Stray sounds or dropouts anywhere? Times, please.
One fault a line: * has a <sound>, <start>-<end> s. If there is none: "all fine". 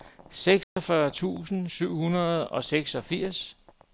* has a dropout, 0.6-0.8 s